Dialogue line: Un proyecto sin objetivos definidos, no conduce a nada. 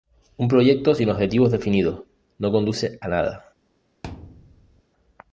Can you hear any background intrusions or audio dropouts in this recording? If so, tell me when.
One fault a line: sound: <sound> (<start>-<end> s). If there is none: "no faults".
sound: thud (4.0-4.8 s)